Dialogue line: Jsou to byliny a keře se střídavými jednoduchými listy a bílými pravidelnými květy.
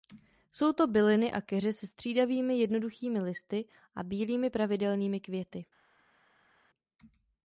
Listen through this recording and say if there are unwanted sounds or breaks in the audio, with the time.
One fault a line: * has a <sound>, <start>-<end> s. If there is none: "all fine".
all fine